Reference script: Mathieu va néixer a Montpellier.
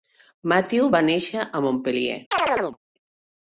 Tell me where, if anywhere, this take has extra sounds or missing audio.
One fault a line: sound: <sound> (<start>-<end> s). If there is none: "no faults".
sound: chirp (2.3-2.8 s)